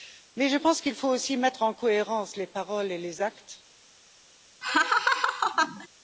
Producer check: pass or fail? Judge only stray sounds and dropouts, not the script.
fail